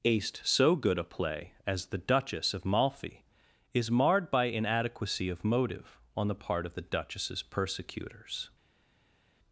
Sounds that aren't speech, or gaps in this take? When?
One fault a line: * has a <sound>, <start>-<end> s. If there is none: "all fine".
all fine